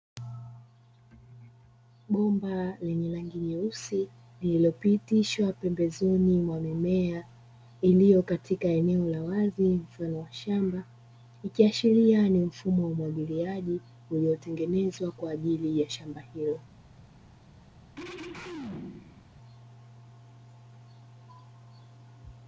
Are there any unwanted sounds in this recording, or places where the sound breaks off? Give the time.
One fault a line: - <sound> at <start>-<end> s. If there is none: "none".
- throat clearing at 18.0-19.3 s